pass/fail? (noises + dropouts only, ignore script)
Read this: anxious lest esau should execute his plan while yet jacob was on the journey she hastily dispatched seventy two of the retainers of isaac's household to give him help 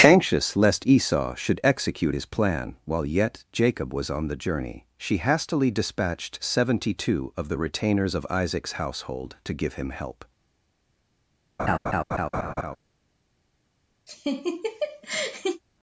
fail